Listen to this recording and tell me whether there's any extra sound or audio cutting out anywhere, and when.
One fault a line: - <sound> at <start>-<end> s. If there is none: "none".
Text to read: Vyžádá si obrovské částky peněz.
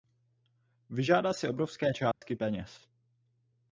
- dropout at 2.1-2.2 s